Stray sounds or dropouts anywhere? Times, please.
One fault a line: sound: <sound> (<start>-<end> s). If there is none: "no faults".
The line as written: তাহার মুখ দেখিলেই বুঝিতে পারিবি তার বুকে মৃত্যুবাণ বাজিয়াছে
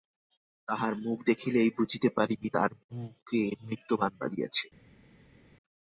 no faults